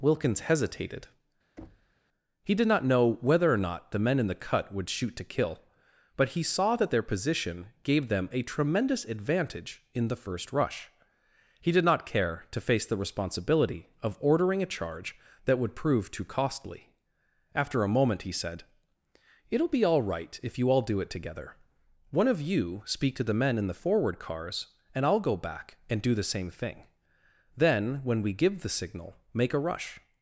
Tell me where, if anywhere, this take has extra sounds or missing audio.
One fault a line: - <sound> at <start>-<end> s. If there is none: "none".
- thud at 1.6-1.9 s